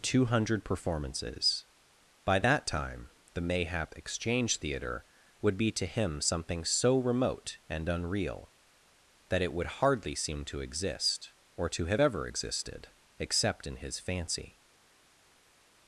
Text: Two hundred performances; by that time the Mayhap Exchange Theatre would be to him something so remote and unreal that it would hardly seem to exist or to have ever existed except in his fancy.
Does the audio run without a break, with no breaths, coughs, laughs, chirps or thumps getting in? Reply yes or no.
yes